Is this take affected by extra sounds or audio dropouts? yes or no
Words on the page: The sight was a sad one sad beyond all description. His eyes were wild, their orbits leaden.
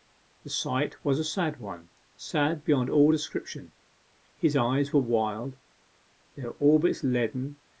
no